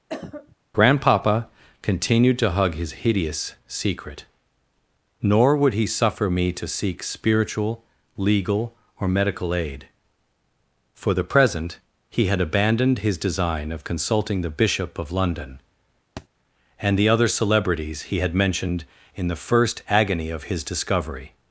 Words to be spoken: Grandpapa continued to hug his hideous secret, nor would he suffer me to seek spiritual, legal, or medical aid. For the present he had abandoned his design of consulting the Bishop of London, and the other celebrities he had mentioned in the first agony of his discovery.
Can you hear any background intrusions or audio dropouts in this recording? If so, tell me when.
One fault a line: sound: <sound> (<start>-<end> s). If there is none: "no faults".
sound: cough (0.1-0.6 s)
sound: thud (16.2-16.3 s)